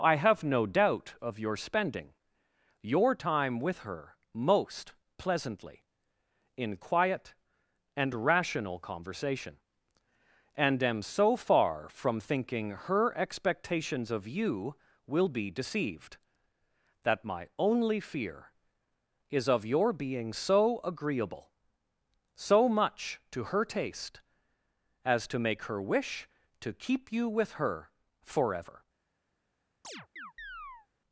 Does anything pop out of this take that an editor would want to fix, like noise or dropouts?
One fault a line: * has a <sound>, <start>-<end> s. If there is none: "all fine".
* has a chirp, 29.8-30.9 s